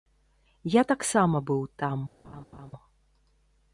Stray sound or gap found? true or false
true